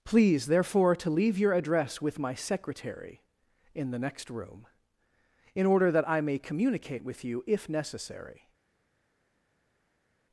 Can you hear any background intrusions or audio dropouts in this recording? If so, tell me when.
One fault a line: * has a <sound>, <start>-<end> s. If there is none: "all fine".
all fine